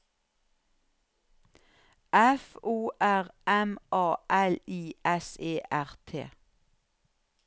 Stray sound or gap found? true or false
false